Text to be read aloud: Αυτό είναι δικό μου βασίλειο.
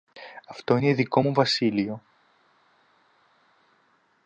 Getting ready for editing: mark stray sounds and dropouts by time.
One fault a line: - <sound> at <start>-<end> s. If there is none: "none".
none